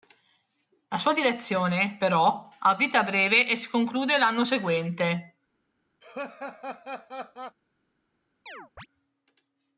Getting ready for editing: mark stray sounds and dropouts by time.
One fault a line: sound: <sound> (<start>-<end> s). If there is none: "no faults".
sound: laugh (6.0-7.6 s)
sound: chirp (8.5-8.9 s)